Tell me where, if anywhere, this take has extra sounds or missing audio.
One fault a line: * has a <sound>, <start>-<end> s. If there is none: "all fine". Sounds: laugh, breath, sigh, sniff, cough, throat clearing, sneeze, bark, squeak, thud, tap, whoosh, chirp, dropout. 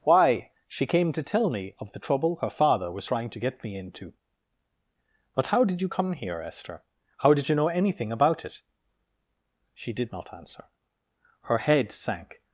all fine